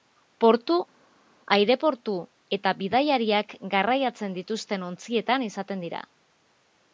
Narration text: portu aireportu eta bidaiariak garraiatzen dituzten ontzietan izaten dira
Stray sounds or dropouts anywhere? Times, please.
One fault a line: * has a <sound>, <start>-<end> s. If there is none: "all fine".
all fine